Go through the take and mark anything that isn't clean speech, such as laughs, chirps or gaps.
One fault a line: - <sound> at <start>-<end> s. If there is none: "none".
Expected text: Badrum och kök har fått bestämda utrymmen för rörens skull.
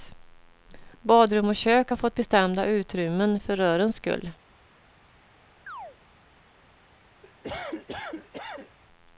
- chirp at 5.7-6.0 s
- cough at 7.2-8.8 s